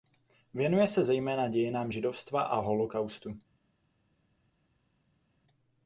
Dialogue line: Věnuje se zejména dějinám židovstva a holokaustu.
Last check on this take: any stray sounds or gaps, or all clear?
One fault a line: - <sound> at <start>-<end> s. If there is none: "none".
none